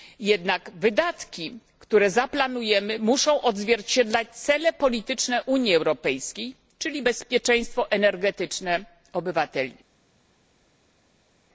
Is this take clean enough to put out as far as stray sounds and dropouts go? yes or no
yes